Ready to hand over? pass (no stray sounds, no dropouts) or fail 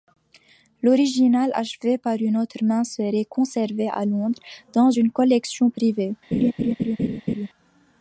fail